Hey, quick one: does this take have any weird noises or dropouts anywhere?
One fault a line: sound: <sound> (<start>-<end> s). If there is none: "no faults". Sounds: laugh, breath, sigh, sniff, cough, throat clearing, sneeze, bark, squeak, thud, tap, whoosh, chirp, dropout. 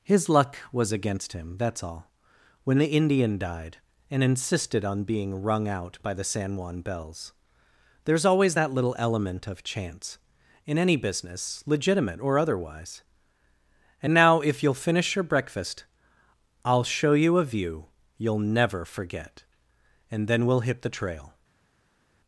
no faults